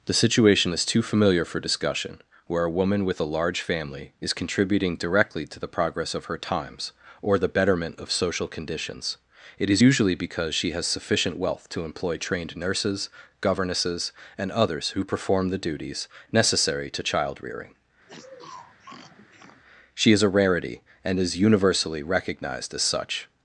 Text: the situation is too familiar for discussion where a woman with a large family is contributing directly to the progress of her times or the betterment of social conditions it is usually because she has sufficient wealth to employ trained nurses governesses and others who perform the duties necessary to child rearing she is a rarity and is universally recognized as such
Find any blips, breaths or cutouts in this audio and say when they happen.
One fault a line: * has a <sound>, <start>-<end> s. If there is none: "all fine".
* has a sniff, 18.1-19.6 s